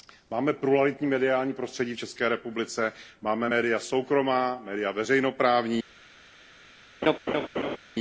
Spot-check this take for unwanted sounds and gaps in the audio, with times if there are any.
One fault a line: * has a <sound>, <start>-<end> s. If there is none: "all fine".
* has a laugh, 7.0-7.8 s